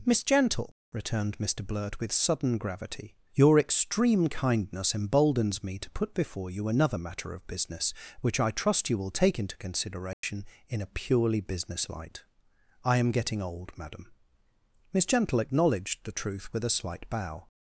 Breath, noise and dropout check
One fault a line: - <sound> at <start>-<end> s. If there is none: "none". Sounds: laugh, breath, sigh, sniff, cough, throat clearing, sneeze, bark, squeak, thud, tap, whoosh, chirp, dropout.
- dropout at 10.1-10.2 s